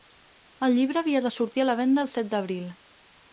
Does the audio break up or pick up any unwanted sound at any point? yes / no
no